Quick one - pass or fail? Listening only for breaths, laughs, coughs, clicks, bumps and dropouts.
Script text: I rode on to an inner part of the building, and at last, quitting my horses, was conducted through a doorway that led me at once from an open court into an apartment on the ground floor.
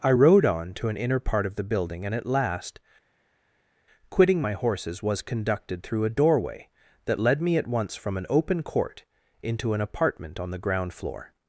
pass